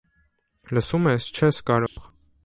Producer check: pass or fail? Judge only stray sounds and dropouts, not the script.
fail